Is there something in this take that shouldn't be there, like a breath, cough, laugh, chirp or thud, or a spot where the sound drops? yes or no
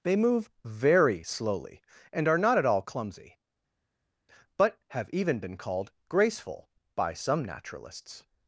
no